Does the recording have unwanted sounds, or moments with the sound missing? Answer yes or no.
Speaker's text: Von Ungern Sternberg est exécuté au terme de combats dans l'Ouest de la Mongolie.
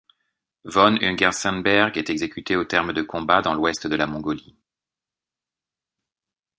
no